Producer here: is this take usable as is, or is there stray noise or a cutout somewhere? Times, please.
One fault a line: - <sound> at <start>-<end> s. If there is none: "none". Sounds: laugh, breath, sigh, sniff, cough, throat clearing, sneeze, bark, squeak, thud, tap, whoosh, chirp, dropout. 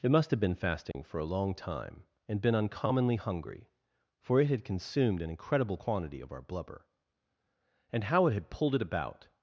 - dropout at 0.9-0.9 s